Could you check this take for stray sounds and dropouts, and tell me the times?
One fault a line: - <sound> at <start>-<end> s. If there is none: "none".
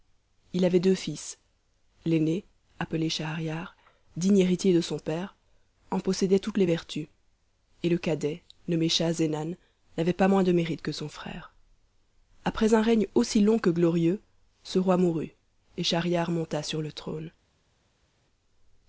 none